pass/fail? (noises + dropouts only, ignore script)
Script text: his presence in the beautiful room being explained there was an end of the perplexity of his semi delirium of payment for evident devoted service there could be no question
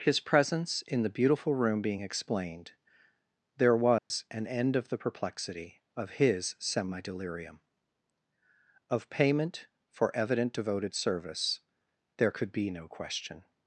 fail